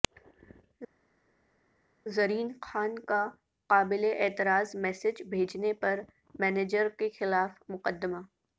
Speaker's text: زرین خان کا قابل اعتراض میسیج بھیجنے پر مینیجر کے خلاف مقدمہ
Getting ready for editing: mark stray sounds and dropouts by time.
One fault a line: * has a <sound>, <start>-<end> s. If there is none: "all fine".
all fine